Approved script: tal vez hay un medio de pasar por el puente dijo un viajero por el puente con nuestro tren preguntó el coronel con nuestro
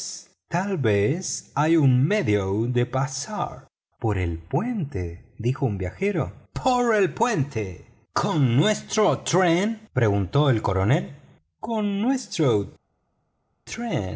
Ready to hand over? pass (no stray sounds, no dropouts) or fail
pass